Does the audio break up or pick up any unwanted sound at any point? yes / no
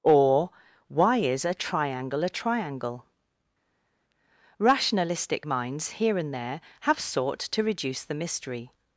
no